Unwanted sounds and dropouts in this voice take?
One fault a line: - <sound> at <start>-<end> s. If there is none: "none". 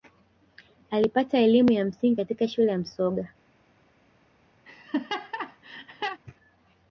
- laugh at 4.6-6.2 s